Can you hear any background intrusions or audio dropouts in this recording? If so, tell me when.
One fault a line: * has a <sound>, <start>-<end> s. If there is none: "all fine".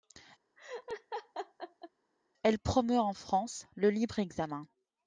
* has a laugh, 0.6-1.9 s